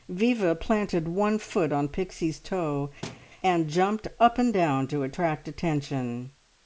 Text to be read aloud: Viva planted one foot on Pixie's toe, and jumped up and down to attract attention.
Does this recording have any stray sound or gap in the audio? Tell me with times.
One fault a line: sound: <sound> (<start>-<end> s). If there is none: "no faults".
sound: thud (3.0-3.3 s)